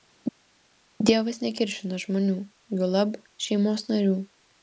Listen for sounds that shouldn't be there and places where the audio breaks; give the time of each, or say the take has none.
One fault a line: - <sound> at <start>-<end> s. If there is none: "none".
none